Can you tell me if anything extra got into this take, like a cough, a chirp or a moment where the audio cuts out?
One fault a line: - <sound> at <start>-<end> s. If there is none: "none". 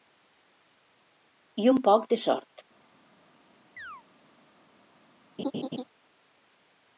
- chirp at 3.8-4.0 s
- laugh at 5.4-5.8 s